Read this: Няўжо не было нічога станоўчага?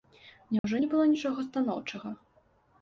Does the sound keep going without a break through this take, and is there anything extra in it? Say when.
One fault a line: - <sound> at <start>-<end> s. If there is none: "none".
- dropout at 0.6-0.6 s